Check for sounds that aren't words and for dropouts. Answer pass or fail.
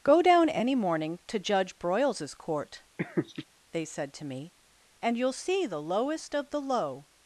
fail